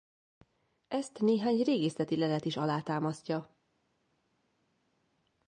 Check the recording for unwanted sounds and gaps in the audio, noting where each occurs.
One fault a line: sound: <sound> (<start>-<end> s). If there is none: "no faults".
no faults